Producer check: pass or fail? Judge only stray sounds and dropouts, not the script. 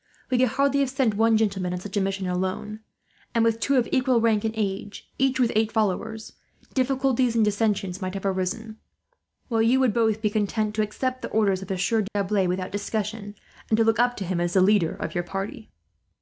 fail